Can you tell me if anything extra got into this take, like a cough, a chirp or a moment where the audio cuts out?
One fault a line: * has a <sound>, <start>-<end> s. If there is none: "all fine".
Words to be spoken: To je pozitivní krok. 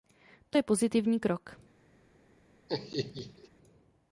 * has a laugh, 2.7-3.5 s